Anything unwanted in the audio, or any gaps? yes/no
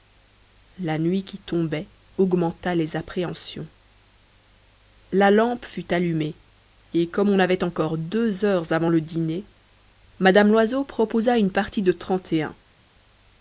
no